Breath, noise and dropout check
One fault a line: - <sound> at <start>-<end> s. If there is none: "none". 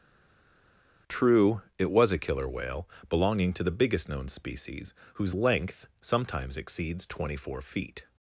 none